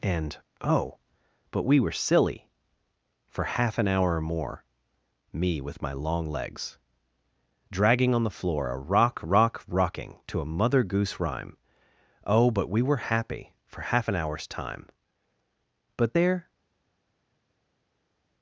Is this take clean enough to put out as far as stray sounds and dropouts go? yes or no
yes